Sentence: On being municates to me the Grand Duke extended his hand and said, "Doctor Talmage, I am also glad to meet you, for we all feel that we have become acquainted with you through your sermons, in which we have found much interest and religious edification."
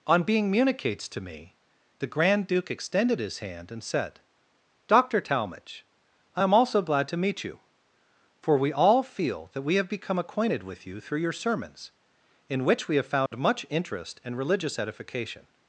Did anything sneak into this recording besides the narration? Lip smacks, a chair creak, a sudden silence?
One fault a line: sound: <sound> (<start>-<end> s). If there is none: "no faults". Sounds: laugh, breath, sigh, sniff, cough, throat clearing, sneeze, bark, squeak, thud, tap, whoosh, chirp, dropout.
sound: dropout (13.3-13.3 s)